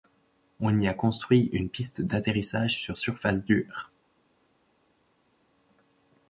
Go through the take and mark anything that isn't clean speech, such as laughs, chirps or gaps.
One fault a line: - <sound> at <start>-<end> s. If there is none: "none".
none